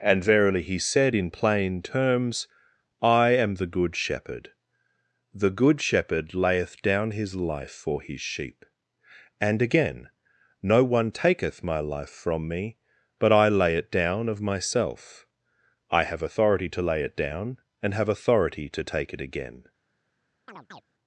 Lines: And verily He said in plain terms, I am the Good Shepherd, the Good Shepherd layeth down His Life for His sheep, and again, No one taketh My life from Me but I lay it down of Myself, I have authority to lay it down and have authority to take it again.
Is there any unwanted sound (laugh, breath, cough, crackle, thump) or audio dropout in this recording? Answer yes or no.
yes